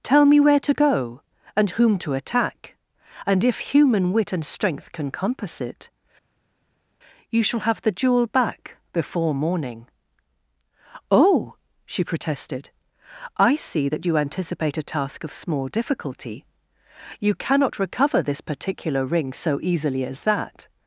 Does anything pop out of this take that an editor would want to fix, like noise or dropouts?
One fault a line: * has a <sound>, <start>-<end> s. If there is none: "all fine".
all fine